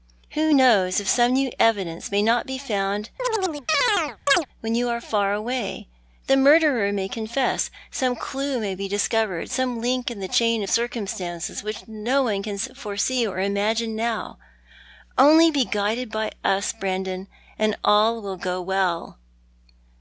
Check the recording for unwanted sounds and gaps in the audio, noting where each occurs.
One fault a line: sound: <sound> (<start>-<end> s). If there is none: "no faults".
sound: chirp (3.2-4.5 s)